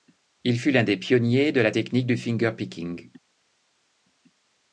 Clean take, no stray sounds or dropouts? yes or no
yes